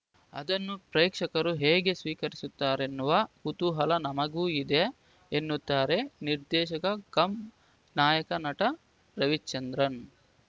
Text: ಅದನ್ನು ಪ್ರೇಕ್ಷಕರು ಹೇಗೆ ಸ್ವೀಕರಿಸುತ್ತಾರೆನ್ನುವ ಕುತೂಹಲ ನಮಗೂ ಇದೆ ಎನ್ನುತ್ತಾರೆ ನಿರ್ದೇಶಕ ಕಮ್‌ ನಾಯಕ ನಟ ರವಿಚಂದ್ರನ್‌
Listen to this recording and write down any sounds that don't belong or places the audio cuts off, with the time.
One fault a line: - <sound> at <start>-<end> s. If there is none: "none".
none